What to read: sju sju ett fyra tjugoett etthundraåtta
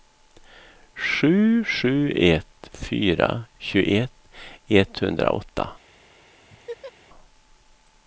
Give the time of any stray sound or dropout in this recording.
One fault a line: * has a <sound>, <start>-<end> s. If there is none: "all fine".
* has a laugh, 6.5-6.9 s